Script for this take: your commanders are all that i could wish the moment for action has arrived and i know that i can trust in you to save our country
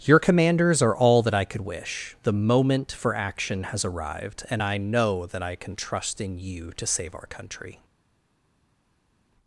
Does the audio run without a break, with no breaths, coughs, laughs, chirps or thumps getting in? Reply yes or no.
yes